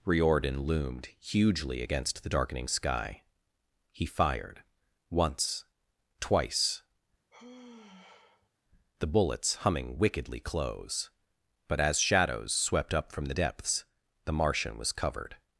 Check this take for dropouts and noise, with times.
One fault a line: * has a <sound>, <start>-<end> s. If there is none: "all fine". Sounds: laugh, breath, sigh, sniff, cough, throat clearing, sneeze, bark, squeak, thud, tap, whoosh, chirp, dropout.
* has a sigh, 7.3-8.5 s